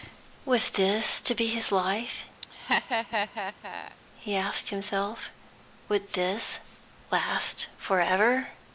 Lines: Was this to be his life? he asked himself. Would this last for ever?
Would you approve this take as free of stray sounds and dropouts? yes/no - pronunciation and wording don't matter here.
no